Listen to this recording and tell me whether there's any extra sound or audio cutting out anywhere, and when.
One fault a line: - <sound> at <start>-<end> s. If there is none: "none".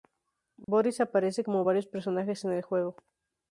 - dropout at 0.6-0.7 s